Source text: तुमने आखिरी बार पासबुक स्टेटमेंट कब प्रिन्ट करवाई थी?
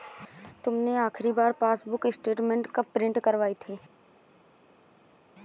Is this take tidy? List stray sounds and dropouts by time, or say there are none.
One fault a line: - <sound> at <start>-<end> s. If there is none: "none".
none